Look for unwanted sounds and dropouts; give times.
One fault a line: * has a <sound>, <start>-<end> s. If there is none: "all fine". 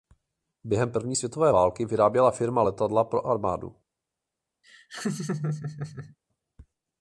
* has a laugh, 4.6-6.2 s